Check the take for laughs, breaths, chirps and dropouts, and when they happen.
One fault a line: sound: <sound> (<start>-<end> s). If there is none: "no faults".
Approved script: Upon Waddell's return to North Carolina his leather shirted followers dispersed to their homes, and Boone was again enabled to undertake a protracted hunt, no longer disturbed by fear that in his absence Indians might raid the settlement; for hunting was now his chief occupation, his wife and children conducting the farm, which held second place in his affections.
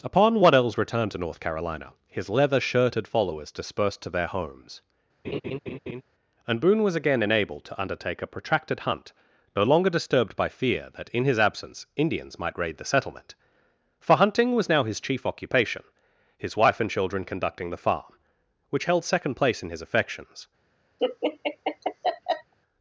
sound: laugh (5.2-6.0 s)
sound: laugh (21.0-22.5 s)